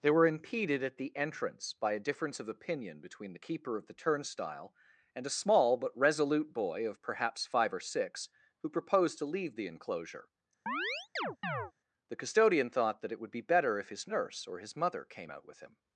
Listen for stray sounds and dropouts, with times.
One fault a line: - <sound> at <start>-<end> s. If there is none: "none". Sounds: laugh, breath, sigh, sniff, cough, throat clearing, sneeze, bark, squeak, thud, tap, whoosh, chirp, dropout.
- chirp at 10.7-11.7 s